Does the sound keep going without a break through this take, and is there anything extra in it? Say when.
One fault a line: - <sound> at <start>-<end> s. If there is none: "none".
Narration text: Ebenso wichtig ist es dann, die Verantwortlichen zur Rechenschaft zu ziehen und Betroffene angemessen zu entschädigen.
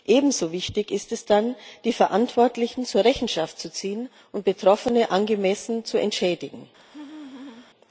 - laugh at 6.8-7.7 s